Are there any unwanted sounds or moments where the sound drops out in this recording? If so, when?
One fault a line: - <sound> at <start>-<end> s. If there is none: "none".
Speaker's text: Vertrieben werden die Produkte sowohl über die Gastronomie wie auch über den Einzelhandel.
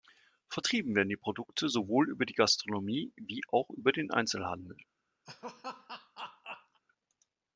- laugh at 5.2-6.8 s